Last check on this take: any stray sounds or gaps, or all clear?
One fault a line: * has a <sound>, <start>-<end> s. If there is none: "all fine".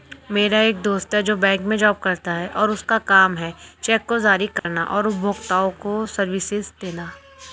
* has a dropout, 4.6-4.7 s